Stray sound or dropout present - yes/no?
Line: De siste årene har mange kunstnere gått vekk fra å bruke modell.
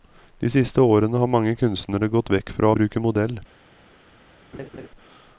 yes